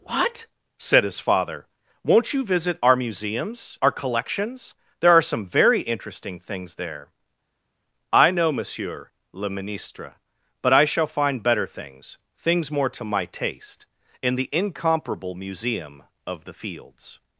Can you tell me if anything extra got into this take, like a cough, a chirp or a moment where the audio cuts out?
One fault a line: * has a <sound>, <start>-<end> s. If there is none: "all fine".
all fine